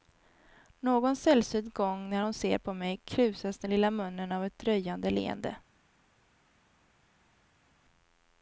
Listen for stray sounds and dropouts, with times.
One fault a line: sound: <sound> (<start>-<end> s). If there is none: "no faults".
no faults